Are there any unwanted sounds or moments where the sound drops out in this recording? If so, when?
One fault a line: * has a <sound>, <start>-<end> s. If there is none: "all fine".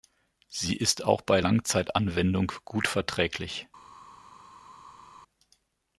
all fine